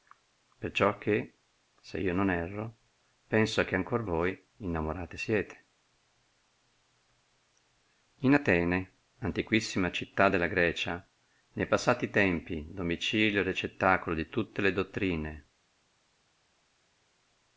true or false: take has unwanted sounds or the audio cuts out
false